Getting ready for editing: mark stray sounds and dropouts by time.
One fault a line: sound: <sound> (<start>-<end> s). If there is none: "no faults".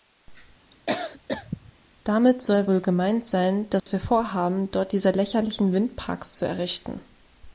sound: cough (0.7-1.7 s)
sound: dropout (3.8-3.9 s)